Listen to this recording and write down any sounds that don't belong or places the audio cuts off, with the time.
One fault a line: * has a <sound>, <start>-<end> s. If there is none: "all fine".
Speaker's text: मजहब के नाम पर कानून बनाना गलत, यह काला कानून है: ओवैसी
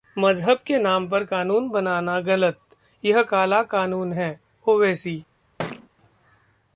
* has a thud, 5.6-5.9 s